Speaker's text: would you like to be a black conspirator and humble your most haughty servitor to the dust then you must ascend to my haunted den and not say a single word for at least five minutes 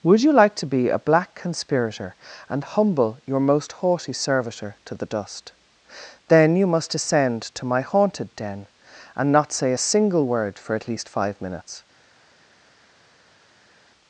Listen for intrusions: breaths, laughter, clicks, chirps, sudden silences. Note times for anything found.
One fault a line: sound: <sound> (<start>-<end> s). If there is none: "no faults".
no faults